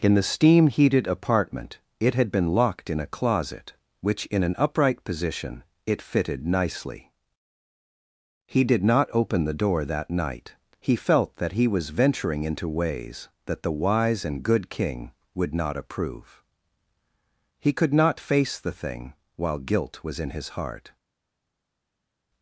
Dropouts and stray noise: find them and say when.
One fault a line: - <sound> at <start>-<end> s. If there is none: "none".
none